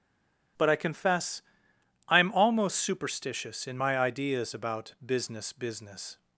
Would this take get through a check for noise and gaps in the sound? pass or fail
pass